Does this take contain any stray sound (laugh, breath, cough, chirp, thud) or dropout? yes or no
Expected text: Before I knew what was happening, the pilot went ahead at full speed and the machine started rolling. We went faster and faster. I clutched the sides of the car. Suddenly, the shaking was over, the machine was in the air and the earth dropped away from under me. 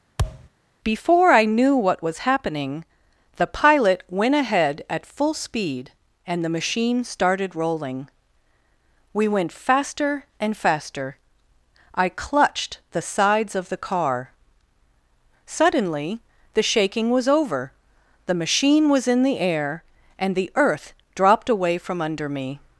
yes